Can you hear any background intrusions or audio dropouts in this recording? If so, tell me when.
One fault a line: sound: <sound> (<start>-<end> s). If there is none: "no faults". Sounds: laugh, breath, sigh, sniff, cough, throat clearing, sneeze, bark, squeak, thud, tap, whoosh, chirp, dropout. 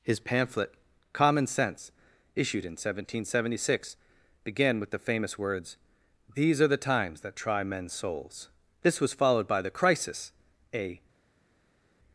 no faults